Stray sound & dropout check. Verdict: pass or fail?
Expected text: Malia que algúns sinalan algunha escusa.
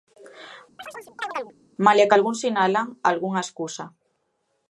fail